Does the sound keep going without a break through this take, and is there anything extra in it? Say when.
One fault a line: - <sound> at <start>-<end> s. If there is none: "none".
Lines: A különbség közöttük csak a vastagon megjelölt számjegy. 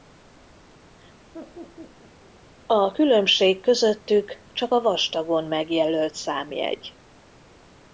- laugh at 1.3-2.3 s